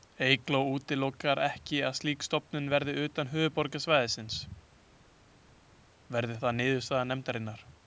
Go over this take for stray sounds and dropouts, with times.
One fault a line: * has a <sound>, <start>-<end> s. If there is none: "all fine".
all fine